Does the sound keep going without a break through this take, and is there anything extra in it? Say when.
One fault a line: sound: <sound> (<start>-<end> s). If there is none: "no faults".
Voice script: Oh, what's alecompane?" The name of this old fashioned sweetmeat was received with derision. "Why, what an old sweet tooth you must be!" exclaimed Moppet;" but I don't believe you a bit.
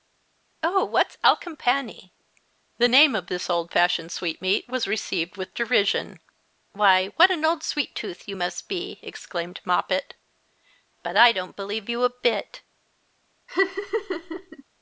sound: laugh (13.5-14.6 s)